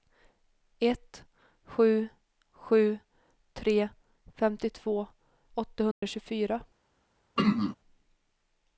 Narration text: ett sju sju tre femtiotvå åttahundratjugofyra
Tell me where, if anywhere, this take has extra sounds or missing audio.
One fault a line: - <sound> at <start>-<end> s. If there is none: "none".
- dropout at 5.9-6.0 s
- throat clearing at 7.4-7.8 s